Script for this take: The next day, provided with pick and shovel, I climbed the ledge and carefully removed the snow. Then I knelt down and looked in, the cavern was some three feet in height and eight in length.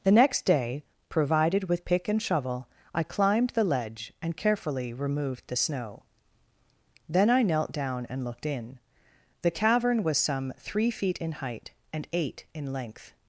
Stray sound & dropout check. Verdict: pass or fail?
pass